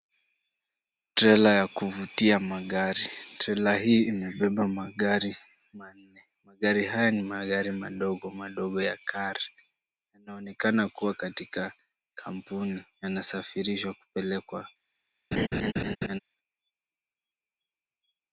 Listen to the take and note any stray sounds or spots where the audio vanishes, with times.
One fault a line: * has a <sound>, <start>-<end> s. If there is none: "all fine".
* has a laugh, 15.3-16.2 s